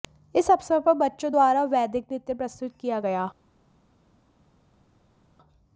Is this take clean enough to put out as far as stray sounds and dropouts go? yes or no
yes